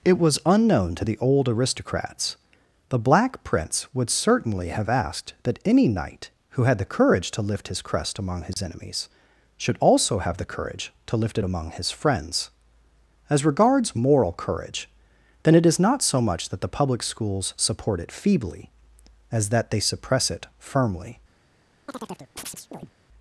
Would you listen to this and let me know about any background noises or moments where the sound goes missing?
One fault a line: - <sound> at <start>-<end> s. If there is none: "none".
- dropout at 8.5-8.6 s
- chirp at 21.9-22.9 s